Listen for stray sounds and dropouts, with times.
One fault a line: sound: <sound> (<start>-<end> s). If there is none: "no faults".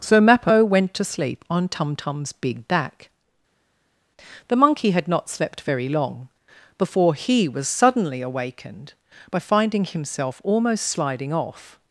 no faults